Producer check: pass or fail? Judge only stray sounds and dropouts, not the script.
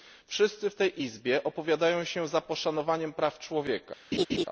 fail